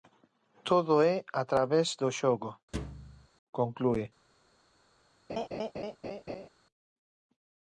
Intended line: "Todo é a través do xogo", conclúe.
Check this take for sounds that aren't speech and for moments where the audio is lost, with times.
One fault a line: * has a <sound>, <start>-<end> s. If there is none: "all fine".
* has a thud, 2.7-3.3 s
* has a laugh, 5.3-6.5 s